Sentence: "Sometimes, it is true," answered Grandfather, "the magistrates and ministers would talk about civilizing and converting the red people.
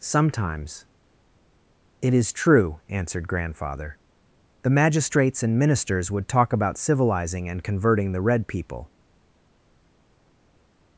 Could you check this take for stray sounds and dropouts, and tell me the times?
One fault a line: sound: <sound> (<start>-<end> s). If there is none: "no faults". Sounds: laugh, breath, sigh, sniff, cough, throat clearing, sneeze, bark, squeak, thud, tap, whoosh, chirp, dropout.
no faults